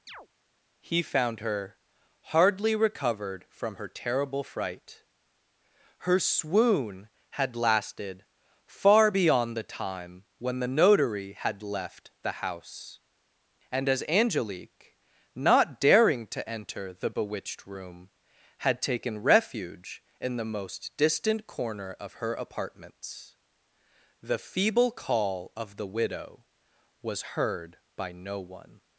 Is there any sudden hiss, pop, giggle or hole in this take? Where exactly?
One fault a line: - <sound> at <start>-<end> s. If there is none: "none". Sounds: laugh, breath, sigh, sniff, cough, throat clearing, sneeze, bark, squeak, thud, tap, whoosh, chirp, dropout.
- chirp at 0.1-0.3 s